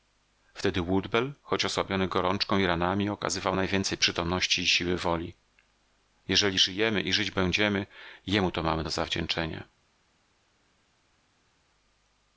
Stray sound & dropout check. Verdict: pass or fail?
pass